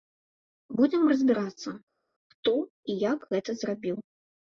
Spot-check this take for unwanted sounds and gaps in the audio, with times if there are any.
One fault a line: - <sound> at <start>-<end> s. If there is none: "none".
none